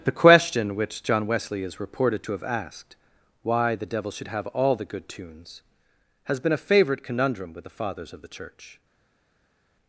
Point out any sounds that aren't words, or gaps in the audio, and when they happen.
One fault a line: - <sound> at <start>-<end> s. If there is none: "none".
none